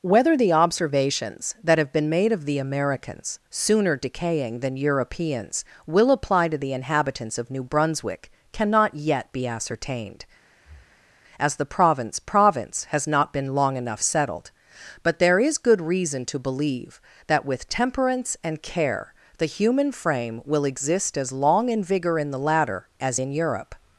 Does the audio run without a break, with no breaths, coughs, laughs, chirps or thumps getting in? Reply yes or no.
no